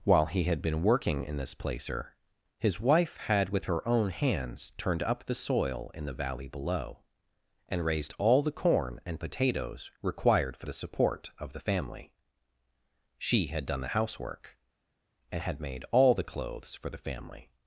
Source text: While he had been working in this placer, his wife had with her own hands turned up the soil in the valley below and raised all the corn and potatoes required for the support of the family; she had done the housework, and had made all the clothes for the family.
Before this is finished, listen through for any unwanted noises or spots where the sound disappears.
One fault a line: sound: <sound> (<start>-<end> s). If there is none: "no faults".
no faults